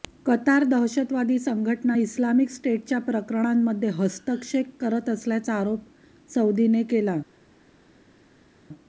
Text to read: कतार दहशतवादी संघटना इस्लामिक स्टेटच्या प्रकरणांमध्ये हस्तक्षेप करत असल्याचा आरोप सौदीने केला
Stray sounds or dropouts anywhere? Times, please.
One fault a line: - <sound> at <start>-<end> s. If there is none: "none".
none